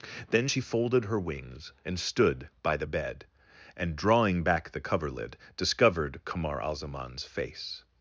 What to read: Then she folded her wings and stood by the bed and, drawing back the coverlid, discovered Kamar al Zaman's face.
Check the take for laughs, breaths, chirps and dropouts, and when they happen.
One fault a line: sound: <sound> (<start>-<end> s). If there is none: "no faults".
no faults